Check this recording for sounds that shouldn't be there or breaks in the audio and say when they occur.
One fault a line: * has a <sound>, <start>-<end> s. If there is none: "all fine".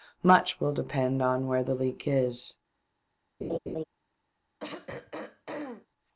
* has a laugh, 3.4-3.8 s
* has a throat clearing, 4.6-5.9 s